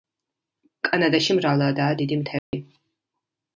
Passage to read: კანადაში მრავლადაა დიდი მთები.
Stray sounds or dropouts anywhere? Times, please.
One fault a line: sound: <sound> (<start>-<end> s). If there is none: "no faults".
sound: dropout (2.4-2.5 s)